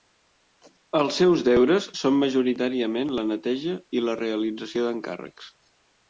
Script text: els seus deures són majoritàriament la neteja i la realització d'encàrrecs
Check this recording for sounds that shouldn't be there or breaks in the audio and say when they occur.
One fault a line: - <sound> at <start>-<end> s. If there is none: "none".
none